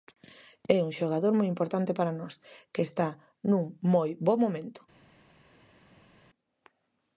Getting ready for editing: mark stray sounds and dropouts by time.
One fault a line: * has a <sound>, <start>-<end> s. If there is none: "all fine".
all fine